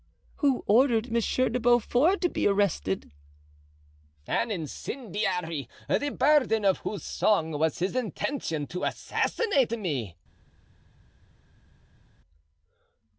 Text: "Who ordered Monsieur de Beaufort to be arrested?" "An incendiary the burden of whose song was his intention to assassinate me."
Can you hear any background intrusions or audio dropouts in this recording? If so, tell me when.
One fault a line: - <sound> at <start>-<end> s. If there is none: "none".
none